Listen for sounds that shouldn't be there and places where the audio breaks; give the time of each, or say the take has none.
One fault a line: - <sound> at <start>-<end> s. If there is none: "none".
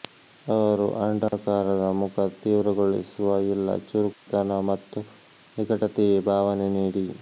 - dropout at 1.3-1.3 s
- dropout at 4.1-4.3 s